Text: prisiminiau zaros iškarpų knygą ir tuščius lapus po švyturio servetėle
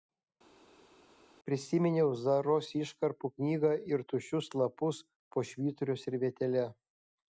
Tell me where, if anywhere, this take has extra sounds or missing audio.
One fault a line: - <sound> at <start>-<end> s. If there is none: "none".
none